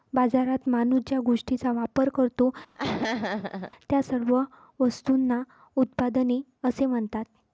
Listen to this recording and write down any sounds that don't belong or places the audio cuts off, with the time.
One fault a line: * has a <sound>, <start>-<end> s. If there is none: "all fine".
* has a laugh, 2.8-3.7 s